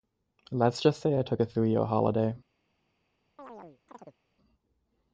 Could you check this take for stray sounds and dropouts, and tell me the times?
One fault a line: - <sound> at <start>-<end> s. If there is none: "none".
- chirp at 3.4-4.2 s